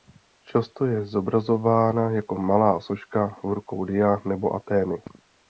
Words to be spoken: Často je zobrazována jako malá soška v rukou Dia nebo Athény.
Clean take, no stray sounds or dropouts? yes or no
yes